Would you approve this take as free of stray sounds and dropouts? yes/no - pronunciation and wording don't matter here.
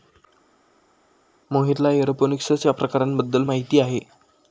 yes